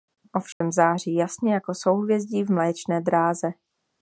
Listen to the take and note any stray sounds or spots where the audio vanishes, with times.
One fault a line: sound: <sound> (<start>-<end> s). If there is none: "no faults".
sound: dropout (0.5-0.6 s)